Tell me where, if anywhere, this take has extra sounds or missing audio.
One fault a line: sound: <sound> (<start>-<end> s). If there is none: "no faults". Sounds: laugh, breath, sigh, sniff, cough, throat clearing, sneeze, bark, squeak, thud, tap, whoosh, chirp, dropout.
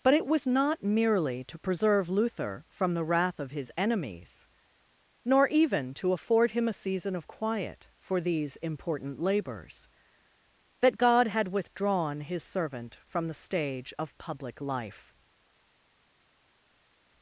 no faults